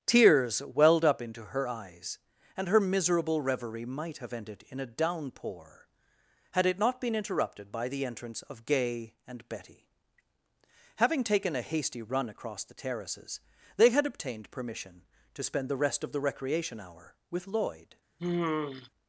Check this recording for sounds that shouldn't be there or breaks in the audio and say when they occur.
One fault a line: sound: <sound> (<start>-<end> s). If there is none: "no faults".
sound: sigh (18.2-18.9 s)